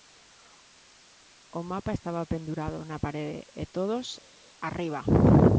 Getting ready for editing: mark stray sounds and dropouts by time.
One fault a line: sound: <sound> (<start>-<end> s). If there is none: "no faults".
no faults